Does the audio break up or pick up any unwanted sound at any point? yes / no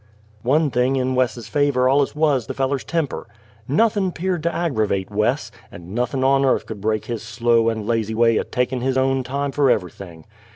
no